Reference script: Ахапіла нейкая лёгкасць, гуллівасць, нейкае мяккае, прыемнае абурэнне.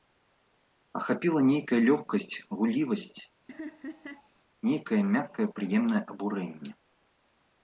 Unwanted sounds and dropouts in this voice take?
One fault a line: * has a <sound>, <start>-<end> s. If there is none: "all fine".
* has a laugh, 3.5-4.3 s